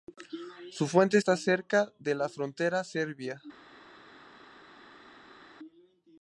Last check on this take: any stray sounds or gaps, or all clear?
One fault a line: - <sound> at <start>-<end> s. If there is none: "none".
none